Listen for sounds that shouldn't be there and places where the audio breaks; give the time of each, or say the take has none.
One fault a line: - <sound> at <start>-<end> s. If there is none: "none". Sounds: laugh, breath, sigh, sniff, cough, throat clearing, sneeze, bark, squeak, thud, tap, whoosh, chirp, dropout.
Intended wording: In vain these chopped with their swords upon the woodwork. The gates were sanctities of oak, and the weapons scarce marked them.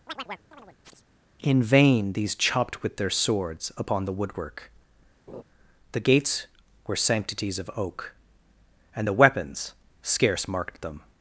- chirp at 0.1-1.0 s
- laugh at 5.3-5.4 s